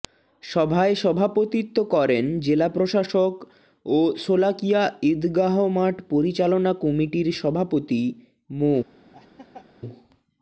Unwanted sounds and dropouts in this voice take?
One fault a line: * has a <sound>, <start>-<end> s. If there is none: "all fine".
* has a laugh, 9.1-9.7 s